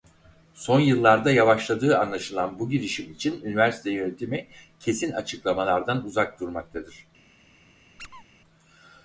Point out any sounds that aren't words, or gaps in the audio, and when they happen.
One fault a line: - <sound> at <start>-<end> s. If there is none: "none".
- squeak at 8.0-8.2 s